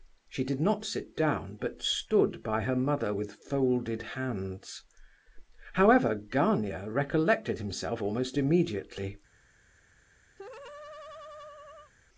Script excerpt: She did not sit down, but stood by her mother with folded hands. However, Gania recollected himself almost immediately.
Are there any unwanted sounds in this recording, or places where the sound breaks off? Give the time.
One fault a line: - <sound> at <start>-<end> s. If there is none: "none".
- laugh at 10.4-11.9 s